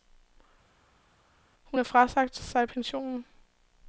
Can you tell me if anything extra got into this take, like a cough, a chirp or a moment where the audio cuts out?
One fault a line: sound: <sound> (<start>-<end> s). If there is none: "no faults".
no faults